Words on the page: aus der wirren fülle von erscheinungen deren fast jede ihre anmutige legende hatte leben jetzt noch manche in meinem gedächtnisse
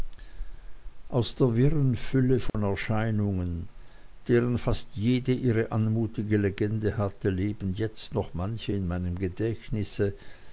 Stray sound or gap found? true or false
true